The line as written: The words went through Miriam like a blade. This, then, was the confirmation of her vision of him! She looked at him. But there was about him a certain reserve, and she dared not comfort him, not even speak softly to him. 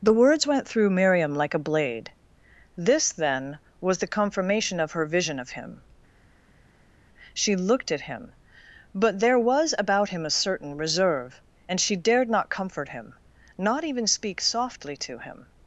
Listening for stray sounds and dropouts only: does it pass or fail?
pass